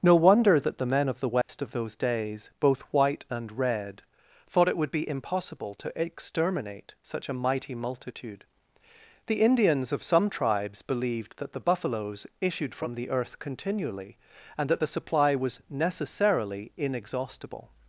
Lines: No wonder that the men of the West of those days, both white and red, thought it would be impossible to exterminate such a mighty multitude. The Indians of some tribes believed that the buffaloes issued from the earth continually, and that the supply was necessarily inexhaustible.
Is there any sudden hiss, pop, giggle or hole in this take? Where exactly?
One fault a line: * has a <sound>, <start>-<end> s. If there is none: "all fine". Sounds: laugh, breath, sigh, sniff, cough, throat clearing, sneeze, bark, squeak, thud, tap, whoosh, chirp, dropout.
* has a dropout, 1.4-1.5 s